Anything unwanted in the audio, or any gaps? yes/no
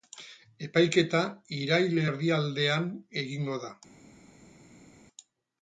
no